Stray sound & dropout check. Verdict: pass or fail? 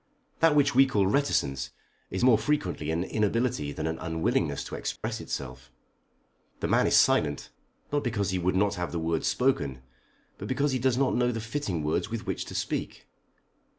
fail